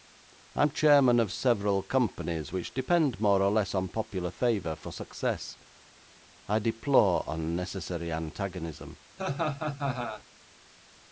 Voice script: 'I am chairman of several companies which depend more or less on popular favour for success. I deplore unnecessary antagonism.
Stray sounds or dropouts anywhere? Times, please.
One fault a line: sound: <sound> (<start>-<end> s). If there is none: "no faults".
sound: laugh (9.2-10.2 s)